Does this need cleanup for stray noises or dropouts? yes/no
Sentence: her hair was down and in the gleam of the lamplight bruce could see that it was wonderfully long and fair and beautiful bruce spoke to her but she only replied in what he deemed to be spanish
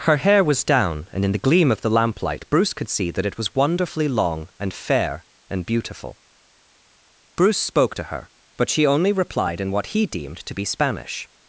no